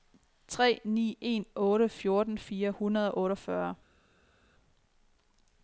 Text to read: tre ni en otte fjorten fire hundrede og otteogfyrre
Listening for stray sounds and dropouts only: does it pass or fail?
pass